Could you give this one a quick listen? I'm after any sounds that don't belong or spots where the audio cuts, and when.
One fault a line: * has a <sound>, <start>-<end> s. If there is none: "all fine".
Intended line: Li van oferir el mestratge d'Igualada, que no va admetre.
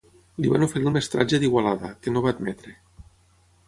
all fine